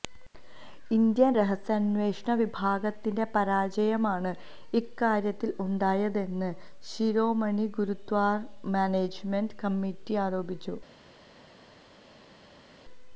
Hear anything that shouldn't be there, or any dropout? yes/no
no